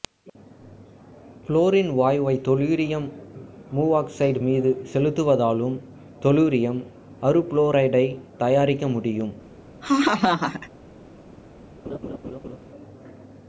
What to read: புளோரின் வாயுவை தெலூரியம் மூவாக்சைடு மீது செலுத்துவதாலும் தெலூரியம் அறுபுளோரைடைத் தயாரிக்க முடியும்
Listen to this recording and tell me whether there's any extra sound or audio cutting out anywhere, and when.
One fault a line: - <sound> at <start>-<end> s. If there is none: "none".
- laugh at 9.8-10.7 s
- laugh at 11.8-12.6 s